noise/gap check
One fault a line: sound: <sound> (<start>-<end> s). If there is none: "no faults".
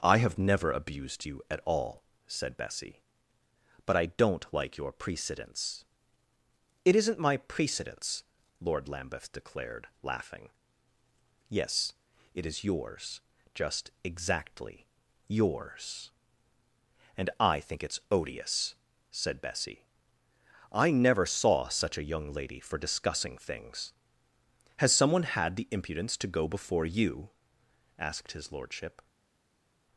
no faults